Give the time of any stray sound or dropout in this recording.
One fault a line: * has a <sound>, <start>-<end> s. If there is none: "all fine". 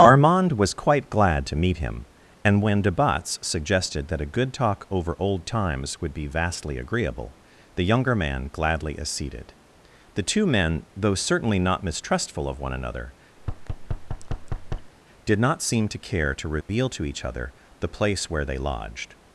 * has a thud, 13.4-14.9 s
* has a dropout, 16.6-16.7 s